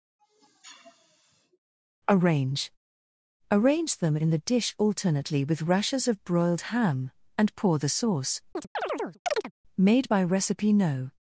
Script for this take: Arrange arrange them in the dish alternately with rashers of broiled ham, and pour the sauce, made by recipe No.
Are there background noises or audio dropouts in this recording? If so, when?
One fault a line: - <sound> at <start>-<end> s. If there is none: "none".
- sniff at 0.2-1.6 s
- chirp at 8.5-9.5 s